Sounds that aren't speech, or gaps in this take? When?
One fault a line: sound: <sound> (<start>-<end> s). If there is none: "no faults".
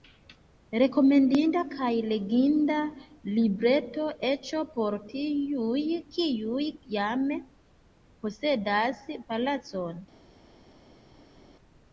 no faults